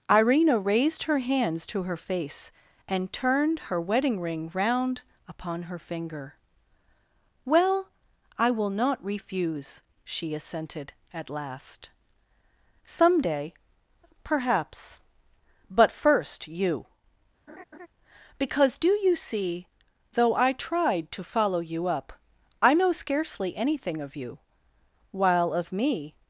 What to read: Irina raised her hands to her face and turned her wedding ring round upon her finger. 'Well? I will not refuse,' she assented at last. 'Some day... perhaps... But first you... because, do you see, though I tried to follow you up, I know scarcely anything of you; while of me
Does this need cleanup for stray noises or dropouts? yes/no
yes